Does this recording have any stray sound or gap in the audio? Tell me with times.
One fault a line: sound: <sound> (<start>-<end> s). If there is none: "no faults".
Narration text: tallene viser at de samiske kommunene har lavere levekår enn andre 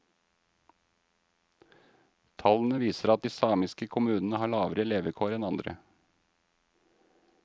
no faults